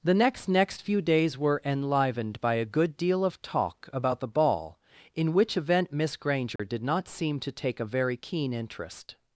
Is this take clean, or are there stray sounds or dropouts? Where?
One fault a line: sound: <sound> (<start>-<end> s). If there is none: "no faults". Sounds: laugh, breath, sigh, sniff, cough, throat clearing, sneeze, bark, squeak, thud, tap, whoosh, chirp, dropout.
sound: dropout (6.6-6.6 s)